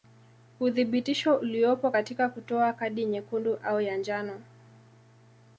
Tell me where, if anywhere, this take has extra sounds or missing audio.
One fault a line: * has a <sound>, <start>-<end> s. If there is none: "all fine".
all fine